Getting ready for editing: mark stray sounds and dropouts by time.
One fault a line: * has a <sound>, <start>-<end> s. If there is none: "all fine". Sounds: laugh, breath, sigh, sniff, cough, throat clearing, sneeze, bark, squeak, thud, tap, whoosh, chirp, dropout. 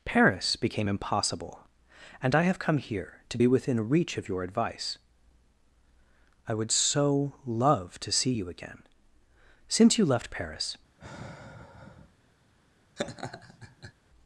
* has a sigh, 11.0-12.2 s
* has a laugh, 13.0-13.9 s